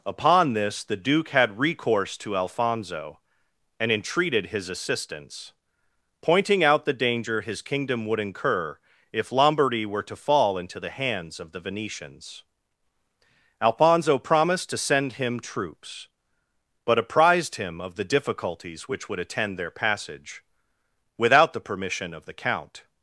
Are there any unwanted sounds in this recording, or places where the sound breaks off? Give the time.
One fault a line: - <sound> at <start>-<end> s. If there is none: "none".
none